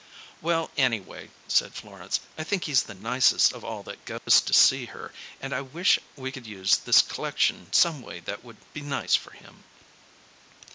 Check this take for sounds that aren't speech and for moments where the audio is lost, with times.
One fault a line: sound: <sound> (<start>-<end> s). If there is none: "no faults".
sound: dropout (4.2-4.3 s)